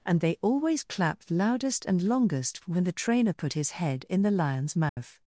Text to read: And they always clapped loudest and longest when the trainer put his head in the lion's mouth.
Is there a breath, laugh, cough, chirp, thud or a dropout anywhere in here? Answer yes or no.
yes